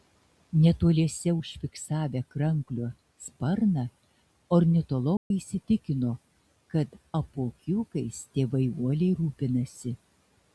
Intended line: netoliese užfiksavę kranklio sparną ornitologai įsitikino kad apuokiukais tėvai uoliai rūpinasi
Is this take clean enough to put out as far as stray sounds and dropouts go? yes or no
no